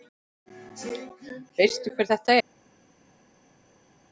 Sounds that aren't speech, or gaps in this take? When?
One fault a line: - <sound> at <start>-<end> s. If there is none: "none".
none